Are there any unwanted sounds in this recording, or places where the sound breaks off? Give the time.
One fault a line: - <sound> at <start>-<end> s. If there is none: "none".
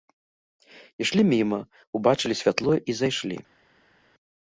none